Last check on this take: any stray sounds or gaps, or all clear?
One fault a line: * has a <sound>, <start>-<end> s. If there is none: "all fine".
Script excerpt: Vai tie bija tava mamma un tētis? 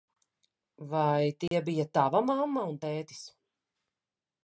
* has a dropout, 1.5-1.5 s